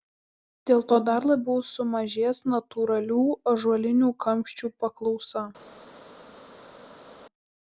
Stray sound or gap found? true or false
false